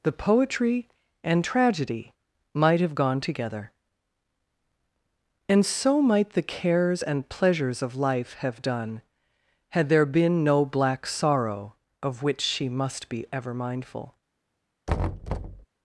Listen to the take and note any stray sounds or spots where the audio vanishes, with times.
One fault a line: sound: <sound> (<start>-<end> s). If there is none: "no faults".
sound: thud (14.9-15.7 s)